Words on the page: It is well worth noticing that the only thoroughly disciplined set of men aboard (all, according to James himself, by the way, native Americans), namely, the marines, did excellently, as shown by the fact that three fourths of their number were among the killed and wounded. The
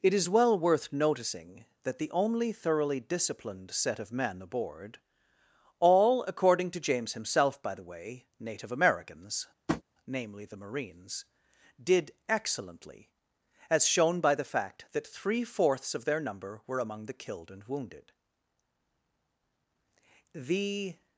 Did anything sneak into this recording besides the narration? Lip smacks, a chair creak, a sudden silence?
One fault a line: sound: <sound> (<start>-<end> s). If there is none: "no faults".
sound: tap (9.7-9.8 s)